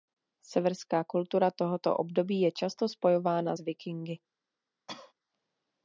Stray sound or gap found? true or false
true